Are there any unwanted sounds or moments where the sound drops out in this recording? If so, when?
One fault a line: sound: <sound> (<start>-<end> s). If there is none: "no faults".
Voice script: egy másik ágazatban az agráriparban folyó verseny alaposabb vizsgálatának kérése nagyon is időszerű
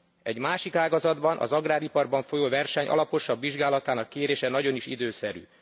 no faults